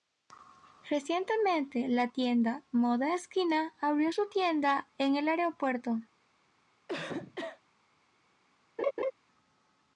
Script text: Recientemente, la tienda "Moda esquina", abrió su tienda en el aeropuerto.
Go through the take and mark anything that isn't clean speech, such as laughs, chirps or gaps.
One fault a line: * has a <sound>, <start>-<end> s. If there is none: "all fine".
* has a cough, 6.9-7.6 s
* has a laugh, 8.8-9.1 s